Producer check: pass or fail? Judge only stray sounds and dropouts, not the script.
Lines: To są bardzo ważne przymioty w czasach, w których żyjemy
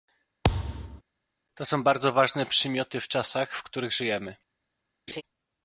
fail